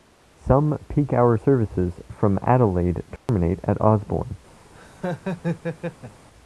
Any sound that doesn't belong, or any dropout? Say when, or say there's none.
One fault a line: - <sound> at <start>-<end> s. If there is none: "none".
- dropout at 3.2-3.3 s
- laugh at 4.7-6.3 s